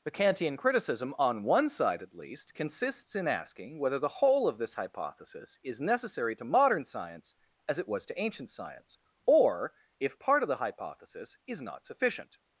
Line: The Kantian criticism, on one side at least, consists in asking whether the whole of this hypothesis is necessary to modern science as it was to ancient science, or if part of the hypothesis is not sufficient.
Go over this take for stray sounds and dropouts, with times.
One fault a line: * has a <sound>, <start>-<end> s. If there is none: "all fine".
all fine